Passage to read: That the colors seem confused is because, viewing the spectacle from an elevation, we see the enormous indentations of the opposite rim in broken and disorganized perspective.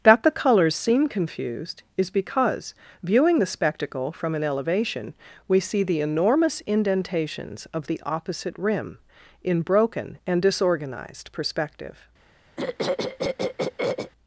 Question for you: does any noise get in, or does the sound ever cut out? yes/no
yes